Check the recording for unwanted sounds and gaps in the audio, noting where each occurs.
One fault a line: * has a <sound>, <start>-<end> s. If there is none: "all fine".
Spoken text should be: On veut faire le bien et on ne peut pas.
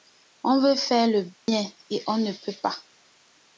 * has a dropout, 1.3-1.5 s